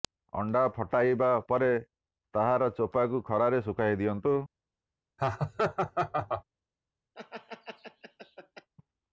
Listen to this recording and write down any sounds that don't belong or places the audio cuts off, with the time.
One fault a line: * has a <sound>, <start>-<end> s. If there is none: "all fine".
* has a laugh, 5.2-6.4 s
* has a laugh, 7.1-8.7 s